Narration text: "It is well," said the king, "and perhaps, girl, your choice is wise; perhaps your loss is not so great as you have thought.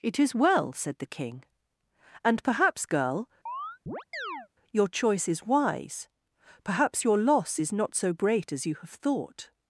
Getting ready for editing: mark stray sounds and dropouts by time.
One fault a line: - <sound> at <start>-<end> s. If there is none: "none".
- chirp at 3.5-4.5 s